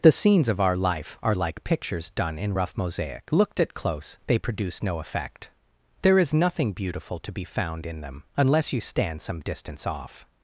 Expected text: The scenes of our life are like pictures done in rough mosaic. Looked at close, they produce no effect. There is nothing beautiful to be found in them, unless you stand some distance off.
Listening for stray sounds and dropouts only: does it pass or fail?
pass